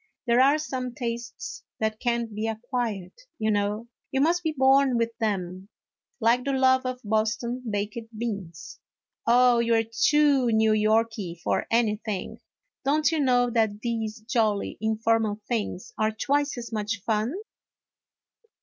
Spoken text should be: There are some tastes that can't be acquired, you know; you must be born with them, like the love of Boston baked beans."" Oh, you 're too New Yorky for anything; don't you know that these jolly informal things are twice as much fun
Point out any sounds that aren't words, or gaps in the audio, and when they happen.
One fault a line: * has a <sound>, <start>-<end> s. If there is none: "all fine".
all fine